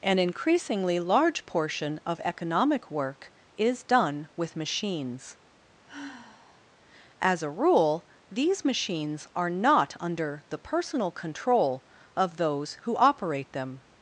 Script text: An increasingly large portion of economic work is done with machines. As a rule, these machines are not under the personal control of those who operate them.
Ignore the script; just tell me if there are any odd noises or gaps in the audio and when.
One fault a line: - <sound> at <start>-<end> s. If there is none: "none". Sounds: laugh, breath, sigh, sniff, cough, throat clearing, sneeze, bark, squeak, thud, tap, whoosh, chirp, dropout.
- sigh at 5.9-6.7 s